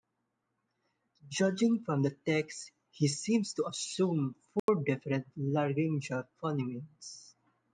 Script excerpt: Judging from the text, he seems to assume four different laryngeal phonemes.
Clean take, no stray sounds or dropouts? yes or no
no